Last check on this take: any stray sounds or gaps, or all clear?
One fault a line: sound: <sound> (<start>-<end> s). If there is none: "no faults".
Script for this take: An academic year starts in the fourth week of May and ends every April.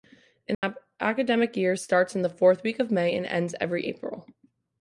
sound: dropout (0.5-0.6 s)